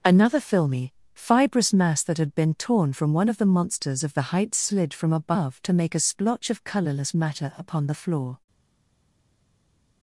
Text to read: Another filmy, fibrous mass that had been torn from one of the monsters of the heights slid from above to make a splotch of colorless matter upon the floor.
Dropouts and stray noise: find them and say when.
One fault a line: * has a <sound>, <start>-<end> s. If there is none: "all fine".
all fine